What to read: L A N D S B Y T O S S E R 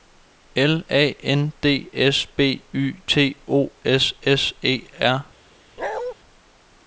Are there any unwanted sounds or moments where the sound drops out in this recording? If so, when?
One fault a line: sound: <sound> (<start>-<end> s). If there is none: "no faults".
sound: bark (5.8-6.1 s)